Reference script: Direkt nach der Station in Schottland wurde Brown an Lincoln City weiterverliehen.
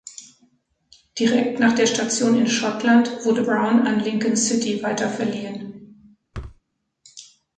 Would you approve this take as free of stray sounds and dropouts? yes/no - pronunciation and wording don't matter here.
no